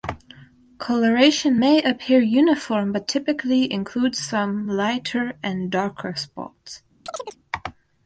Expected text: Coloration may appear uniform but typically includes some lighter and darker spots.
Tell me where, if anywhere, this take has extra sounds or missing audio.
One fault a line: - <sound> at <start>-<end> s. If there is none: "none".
- chirp at 7.1-7.4 s